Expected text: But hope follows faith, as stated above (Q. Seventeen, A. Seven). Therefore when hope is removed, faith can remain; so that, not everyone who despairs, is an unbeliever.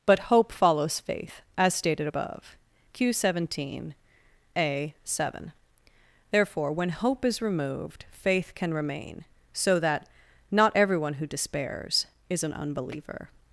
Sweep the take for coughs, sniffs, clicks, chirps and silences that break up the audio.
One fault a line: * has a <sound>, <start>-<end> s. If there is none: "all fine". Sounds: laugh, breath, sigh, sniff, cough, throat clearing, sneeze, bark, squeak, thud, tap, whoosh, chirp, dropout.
all fine